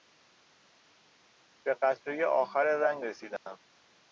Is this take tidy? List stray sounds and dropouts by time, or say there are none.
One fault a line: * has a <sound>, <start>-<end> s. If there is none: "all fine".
* has a dropout, 3.4-3.5 s